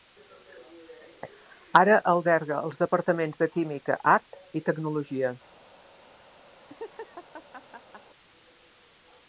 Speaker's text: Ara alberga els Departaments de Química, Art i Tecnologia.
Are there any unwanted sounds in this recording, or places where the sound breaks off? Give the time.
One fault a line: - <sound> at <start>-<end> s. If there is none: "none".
- laugh at 6.5-8.1 s